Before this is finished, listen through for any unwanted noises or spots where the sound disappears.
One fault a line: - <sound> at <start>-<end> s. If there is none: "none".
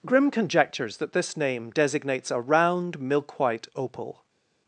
none